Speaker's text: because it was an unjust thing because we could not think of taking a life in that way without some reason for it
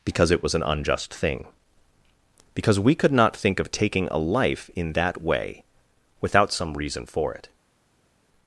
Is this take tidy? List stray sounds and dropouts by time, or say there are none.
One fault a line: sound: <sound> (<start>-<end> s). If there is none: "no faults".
no faults